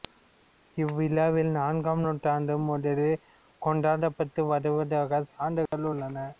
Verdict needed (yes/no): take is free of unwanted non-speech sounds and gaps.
no